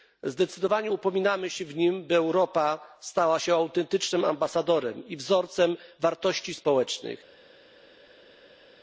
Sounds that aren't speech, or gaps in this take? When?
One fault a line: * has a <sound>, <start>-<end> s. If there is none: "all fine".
all fine